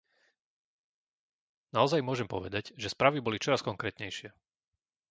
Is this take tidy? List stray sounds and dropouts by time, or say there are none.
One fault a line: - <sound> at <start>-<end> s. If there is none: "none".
none